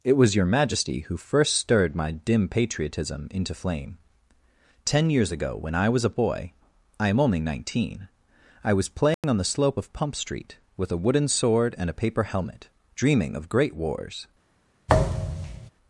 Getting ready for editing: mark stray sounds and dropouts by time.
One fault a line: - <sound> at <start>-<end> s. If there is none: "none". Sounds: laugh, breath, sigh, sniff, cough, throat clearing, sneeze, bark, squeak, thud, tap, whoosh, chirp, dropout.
- dropout at 9.1-9.2 s
- thud at 14.9-15.7 s